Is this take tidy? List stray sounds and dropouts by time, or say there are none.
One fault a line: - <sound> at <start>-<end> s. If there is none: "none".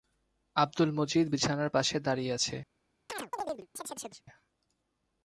- chirp at 3.1-4.2 s